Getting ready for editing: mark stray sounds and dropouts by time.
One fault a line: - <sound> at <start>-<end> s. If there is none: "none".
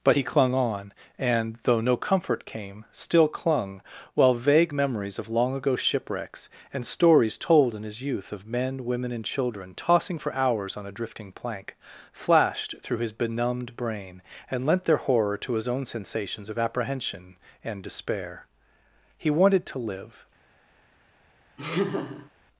- laugh at 21.6-22.3 s